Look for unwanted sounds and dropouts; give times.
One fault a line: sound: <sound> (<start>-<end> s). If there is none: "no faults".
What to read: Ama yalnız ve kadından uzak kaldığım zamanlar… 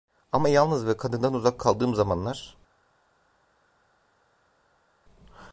no faults